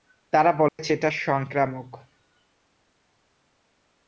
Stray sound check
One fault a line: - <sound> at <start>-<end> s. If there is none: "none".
- dropout at 0.7-0.8 s